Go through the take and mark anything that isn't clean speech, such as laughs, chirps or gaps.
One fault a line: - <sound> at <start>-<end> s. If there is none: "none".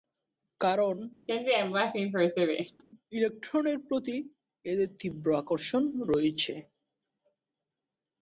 - laugh at 1.3-2.8 s